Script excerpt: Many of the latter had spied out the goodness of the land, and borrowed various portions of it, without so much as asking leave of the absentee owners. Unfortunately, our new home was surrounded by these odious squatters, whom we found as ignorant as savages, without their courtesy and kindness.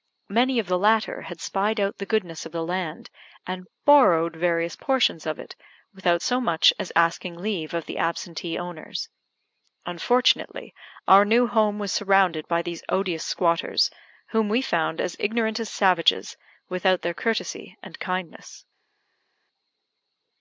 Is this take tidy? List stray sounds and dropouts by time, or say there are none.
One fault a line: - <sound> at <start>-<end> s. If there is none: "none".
none